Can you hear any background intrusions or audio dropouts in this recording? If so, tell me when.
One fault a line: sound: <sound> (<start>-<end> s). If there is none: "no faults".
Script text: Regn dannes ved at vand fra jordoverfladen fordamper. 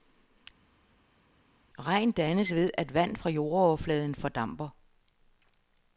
no faults